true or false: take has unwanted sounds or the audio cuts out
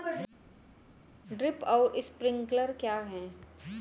false